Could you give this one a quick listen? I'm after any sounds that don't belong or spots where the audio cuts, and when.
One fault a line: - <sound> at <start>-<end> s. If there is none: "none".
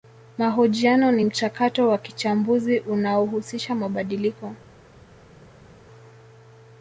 none